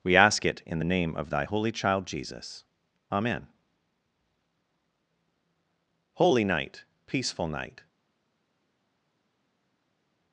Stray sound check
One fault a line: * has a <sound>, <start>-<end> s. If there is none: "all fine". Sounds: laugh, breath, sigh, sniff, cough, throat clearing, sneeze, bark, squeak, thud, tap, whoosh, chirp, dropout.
all fine